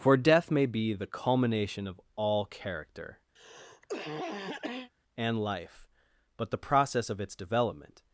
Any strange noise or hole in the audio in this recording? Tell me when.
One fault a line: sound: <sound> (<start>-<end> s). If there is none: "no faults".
sound: cough (3.4-4.9 s)